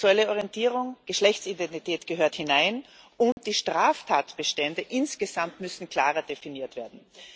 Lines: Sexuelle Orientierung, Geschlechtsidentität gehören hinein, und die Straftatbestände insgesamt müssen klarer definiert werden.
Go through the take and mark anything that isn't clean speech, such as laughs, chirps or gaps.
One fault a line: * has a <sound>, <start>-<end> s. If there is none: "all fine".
* has a dropout, 3.3-3.4 s